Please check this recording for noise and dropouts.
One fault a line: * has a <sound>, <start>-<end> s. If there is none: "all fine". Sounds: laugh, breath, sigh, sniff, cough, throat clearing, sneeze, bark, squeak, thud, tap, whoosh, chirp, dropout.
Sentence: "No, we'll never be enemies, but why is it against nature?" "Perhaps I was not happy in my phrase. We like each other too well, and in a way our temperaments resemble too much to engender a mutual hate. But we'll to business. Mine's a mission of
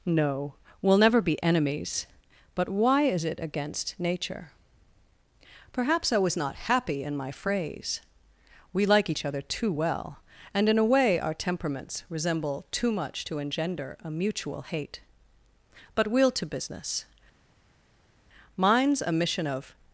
all fine